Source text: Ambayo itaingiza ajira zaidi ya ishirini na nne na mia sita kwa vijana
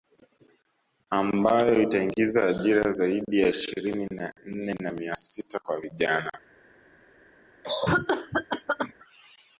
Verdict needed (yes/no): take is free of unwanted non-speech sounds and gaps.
no